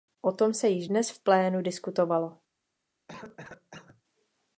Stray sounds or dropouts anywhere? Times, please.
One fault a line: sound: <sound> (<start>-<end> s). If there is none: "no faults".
sound: cough (3.1-4.0 s)